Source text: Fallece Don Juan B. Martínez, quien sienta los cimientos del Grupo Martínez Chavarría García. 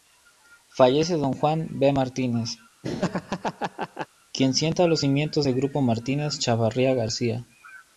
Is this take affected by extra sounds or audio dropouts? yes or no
yes